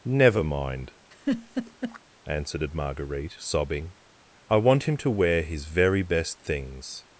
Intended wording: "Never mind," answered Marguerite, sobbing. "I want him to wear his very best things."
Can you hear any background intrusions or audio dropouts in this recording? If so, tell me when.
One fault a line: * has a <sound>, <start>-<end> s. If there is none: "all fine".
* has a laugh, 1.1-2.0 s